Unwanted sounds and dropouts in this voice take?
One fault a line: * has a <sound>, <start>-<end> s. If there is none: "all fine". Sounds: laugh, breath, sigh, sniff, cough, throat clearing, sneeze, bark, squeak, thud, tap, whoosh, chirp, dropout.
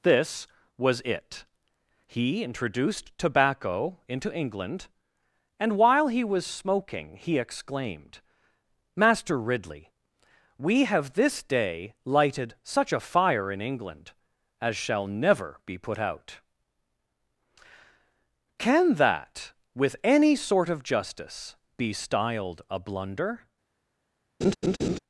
* has a laugh, 24.4-25.0 s